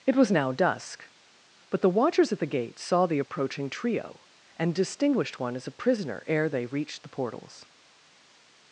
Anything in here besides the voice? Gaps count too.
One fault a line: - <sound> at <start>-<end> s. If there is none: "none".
none